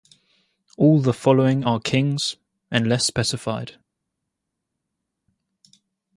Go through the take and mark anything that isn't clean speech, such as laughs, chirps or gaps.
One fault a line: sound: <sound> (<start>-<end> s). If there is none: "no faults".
no faults